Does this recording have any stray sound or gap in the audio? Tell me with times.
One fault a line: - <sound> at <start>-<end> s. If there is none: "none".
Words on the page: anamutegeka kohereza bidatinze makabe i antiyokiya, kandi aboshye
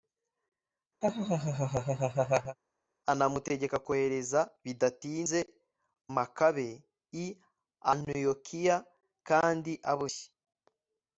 - laugh at 1.0-2.6 s